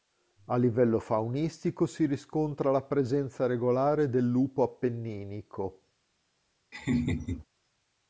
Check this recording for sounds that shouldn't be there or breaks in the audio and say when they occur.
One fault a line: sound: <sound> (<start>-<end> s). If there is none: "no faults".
sound: laugh (6.7-7.4 s)